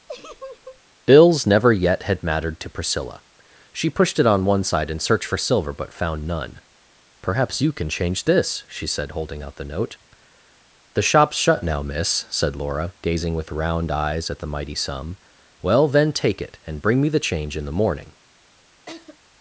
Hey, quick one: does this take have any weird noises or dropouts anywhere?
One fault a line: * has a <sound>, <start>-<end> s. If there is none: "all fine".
* has a laugh, 0.1-0.8 s
* has a laugh, 18.9-19.2 s